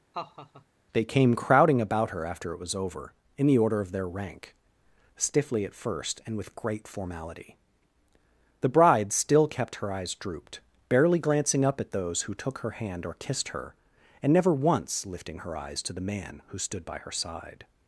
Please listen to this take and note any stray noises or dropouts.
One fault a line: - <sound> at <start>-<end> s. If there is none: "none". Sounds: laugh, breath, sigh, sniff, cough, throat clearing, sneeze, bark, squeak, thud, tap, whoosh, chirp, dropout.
- laugh at 0.1-0.6 s